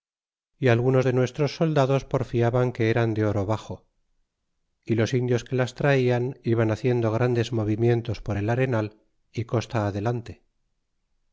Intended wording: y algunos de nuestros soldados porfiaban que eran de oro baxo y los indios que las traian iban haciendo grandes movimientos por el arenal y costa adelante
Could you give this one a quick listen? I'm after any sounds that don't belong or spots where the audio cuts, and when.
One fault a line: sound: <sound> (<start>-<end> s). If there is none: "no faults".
no faults